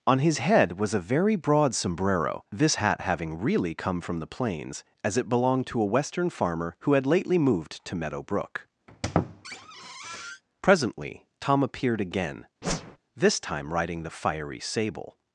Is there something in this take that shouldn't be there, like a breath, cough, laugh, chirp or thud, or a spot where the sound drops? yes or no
yes